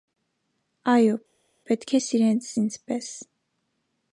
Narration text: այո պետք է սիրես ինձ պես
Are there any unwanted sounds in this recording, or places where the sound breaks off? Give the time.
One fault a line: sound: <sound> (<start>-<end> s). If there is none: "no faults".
no faults